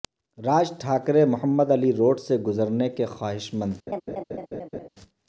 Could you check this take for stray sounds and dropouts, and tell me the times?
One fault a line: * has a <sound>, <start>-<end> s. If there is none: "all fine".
* has a laugh, 3.9-4.9 s